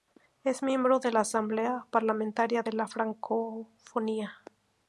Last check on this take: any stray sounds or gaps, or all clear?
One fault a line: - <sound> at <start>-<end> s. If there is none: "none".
none